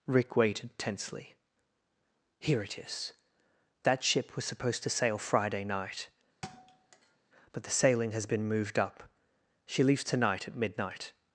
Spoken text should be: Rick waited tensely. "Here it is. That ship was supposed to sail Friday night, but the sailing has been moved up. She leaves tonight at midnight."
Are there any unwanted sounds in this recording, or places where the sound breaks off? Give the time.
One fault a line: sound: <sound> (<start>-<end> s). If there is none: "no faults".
sound: thud (6.4-7.2 s)